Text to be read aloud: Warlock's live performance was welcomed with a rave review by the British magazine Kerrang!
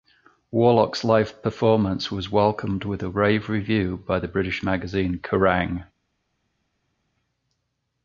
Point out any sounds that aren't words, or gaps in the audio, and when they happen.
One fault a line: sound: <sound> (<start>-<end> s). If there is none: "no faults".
no faults